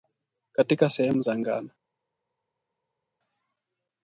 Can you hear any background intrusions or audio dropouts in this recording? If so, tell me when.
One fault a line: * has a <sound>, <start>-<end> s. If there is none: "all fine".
all fine